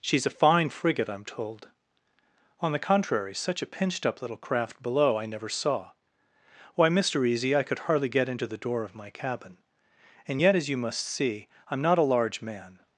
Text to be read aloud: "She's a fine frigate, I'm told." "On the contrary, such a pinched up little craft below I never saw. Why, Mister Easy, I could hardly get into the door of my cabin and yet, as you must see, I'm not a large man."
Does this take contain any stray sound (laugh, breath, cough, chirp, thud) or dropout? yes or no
no